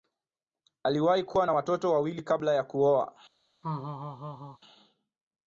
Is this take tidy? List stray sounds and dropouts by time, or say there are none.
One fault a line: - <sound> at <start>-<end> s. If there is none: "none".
- laugh at 3.6-4.6 s